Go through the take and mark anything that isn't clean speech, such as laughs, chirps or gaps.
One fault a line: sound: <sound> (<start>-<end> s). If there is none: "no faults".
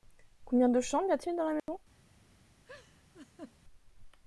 sound: dropout (1.6-1.7 s)
sound: laugh (2.6-3.6 s)